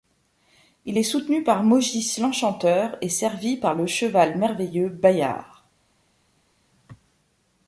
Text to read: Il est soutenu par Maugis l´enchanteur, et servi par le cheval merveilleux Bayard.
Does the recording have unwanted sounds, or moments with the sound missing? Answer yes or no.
no